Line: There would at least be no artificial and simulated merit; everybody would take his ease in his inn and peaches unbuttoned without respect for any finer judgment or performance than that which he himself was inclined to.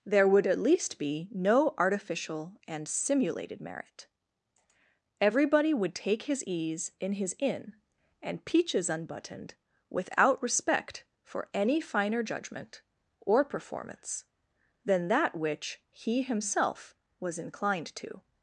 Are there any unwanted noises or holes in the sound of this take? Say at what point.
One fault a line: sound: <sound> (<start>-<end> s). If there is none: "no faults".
no faults